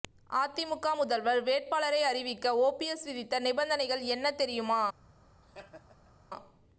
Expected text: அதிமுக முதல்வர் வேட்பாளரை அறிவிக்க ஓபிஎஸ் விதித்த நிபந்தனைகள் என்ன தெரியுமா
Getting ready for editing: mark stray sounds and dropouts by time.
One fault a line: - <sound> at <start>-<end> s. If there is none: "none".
- laugh at 5.4-6.1 s